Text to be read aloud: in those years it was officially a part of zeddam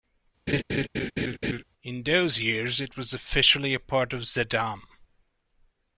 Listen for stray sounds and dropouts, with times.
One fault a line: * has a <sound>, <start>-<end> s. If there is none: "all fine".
* has a laugh, 0.5-1.6 s